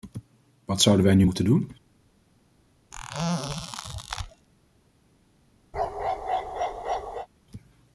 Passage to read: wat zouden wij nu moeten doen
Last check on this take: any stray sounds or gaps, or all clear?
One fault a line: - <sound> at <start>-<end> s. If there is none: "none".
- squeak at 2.9-4.5 s
- bark at 5.7-7.3 s